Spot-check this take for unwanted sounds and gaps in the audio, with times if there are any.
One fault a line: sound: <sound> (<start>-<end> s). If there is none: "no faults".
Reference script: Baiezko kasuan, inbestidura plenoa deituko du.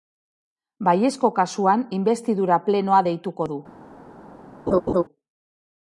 sound: laugh (4.7-5.0 s)